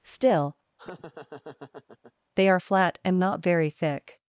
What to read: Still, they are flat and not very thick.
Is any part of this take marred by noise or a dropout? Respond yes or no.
yes